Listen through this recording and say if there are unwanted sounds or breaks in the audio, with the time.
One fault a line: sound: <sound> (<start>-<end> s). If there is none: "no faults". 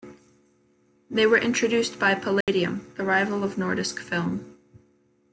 sound: dropout (2.4-2.5 s)